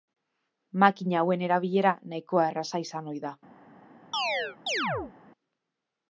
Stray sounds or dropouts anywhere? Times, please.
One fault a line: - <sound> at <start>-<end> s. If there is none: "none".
- chirp at 4.1-5.1 s